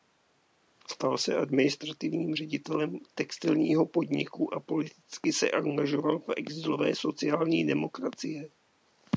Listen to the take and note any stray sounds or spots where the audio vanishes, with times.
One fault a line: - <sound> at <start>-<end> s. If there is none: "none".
none